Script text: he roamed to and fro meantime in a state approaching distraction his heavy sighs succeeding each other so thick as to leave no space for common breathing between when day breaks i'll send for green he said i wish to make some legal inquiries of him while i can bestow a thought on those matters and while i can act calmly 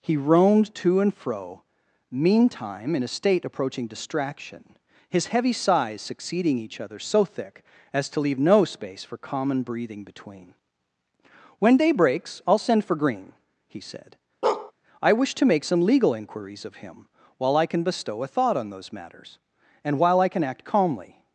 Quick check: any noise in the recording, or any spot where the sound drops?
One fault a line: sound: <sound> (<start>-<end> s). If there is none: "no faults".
sound: bark (14.4-14.7 s)